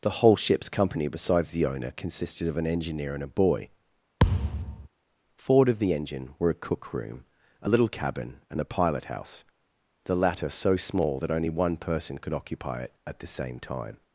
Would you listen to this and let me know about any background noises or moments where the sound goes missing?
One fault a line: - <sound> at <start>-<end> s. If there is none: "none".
- thud at 4.2-4.9 s